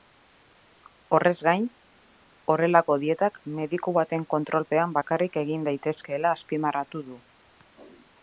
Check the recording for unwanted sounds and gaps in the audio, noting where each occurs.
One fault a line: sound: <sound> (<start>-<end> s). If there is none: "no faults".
no faults